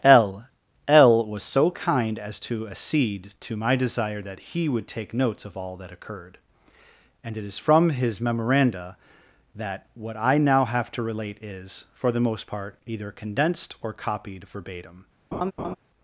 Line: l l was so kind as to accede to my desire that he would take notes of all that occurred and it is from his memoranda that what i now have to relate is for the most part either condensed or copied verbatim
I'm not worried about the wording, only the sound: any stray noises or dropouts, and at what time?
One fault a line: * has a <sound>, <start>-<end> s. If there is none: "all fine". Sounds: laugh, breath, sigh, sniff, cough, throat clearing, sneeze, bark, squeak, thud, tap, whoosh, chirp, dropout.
* has a laugh, 15.3-15.8 s